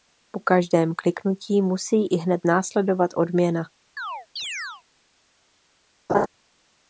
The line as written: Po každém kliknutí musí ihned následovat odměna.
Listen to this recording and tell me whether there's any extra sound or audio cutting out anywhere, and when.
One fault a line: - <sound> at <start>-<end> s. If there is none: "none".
- chirp at 4.0-4.8 s
- laugh at 6.1-6.3 s